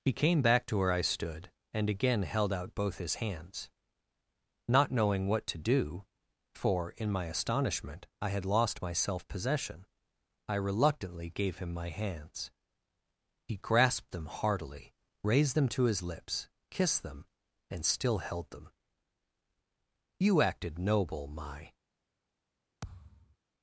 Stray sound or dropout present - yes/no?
yes